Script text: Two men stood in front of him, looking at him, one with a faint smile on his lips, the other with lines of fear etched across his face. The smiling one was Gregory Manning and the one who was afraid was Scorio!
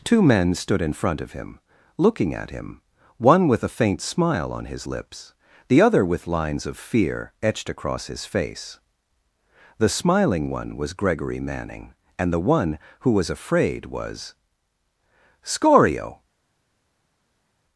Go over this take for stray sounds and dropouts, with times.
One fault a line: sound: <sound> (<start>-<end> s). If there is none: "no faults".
no faults